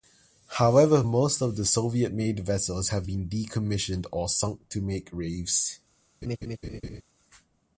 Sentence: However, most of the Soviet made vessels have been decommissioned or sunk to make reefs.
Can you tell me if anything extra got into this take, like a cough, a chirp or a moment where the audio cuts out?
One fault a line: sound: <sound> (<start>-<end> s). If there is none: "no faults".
sound: laugh (6.2-7.0 s)